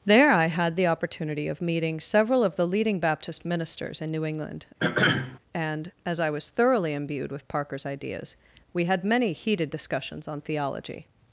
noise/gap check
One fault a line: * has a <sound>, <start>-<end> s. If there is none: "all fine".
* has a throat clearing, 4.8-5.4 s